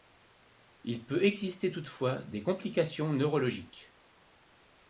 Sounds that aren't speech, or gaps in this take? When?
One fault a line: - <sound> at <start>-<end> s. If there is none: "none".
none